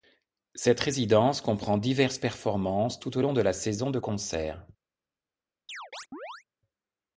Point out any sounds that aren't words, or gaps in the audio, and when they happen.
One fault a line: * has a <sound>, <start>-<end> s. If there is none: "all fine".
* has a chirp, 5.7-6.4 s